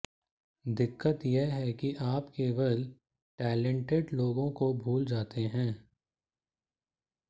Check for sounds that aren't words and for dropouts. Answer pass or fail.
pass